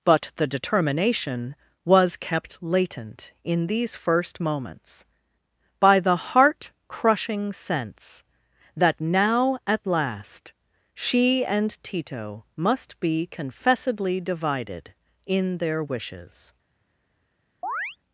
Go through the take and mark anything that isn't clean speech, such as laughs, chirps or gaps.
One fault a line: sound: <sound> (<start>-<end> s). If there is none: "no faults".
sound: chirp (17.6-18.0 s)